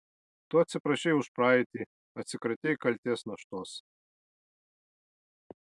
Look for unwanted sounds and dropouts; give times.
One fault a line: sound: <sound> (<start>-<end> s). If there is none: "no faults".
no faults